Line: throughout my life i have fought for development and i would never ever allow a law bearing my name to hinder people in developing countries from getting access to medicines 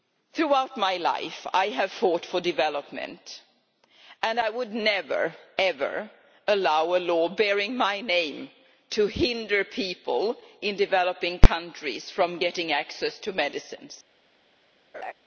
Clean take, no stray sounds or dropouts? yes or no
no